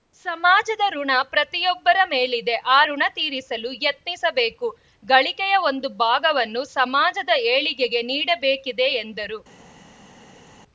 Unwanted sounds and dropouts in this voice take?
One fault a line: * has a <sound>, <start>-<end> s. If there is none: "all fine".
all fine